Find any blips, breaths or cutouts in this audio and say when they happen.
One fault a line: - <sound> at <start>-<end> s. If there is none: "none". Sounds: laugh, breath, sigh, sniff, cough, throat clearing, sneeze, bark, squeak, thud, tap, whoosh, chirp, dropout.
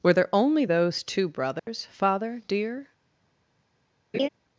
- dropout at 1.6-1.7 s
- laugh at 4.1-4.3 s